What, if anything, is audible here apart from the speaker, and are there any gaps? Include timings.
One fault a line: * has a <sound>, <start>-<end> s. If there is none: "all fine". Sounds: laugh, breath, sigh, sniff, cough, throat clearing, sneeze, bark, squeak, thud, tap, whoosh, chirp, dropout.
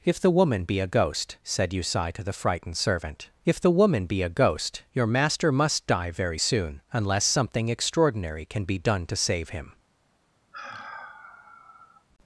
* has a sigh, 10.5-12.1 s